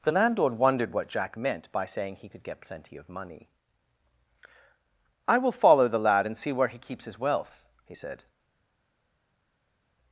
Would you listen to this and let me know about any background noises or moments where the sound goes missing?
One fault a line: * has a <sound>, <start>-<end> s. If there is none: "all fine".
all fine